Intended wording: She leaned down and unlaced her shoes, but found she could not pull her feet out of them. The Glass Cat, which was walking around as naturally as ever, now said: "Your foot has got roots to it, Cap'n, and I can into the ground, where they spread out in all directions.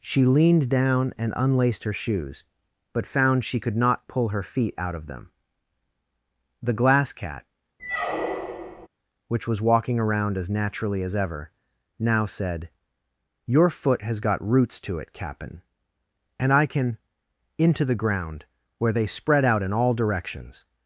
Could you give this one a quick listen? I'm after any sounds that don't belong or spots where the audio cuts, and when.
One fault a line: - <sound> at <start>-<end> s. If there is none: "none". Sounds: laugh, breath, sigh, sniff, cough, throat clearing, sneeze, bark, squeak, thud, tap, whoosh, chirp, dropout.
- squeak at 7.8-8.9 s